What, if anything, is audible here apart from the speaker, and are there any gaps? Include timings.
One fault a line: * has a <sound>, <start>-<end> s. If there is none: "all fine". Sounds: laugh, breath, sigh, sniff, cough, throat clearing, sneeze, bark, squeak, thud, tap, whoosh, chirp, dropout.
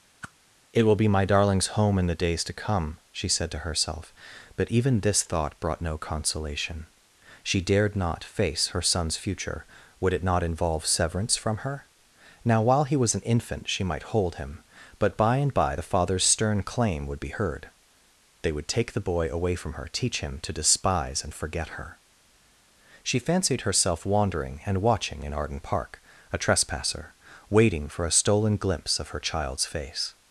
* has a whoosh, 0.2-0.3 s